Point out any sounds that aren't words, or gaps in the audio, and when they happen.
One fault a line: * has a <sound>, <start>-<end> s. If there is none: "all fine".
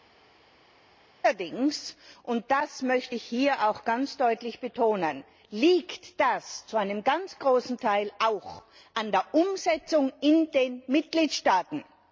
all fine